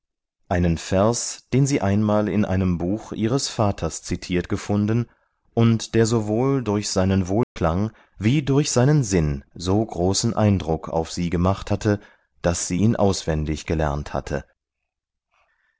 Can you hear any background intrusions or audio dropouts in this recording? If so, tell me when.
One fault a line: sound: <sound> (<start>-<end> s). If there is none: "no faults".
sound: dropout (7.4-7.6 s)